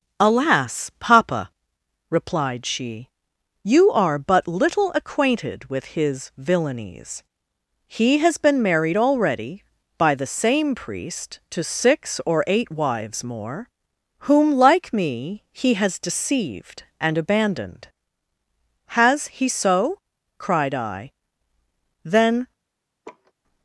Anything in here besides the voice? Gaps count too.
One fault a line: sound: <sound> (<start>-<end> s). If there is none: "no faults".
sound: laugh (23.0-23.3 s)